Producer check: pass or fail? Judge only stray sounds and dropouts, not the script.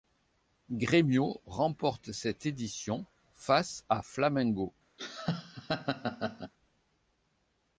fail